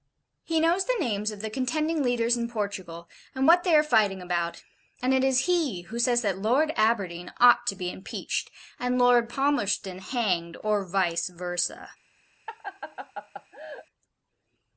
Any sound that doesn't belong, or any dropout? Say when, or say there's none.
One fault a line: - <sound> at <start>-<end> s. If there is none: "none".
- laugh at 12.5-13.9 s